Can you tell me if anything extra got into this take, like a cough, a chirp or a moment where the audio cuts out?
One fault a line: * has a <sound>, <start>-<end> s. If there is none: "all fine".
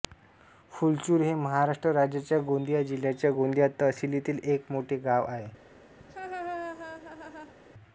* has a laugh, 6.0-7.5 s